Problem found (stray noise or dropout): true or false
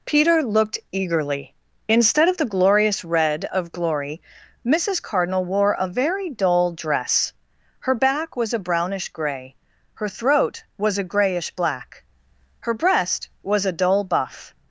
false